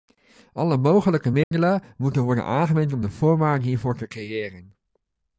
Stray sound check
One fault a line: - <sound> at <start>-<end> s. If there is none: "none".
- dropout at 1.4-1.5 s